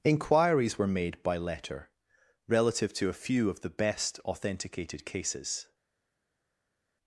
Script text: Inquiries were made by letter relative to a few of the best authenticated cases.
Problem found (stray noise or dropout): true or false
false